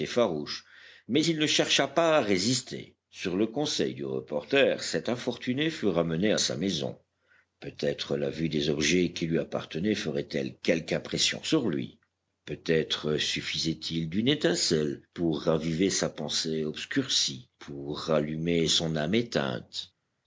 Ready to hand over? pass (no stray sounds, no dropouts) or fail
pass